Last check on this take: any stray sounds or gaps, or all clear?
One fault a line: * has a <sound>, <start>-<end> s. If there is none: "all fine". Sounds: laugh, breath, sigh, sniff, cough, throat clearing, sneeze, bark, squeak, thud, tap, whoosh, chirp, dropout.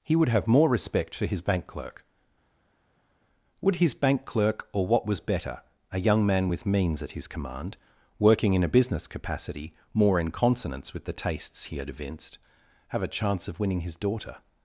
all fine